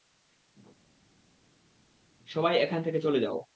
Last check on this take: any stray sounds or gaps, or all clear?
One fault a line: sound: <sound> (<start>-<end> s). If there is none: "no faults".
no faults